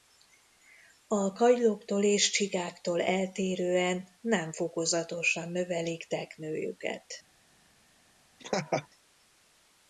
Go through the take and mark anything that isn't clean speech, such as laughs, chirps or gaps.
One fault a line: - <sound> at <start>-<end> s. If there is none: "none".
- laugh at 8.4-8.9 s